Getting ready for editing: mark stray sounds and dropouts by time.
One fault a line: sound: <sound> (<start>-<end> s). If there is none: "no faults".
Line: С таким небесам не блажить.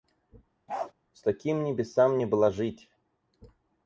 sound: bark (0.7-0.9 s)